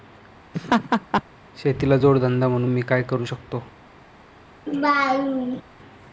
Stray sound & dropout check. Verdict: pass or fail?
fail